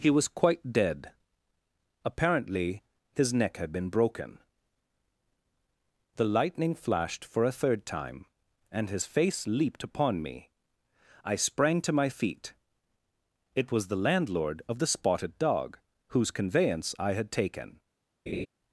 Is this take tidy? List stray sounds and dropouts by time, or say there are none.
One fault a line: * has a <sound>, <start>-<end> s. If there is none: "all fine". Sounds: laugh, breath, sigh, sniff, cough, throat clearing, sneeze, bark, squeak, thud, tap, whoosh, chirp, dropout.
* has a laugh, 18.3-18.5 s